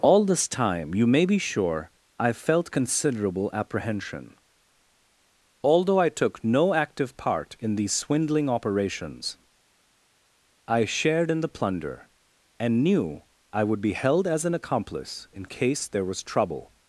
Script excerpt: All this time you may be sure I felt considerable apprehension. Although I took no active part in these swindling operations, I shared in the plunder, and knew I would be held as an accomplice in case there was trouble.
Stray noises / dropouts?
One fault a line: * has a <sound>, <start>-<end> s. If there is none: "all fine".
all fine